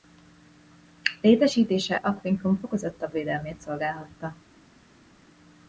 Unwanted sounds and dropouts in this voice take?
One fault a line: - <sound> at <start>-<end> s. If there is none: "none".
none